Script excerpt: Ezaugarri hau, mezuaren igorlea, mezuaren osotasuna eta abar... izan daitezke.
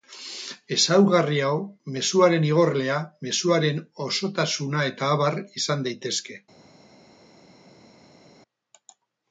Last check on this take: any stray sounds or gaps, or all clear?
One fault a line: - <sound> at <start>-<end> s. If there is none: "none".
none